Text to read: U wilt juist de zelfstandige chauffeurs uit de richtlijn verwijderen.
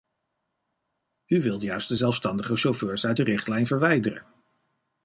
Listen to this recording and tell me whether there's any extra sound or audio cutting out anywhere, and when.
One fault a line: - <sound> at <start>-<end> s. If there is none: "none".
none